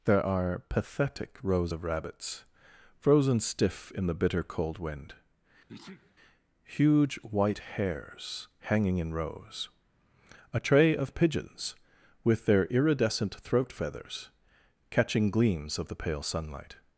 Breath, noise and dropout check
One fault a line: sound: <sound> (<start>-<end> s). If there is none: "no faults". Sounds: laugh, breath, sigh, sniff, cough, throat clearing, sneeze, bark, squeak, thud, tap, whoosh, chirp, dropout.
sound: sneeze (5.7-6.2 s)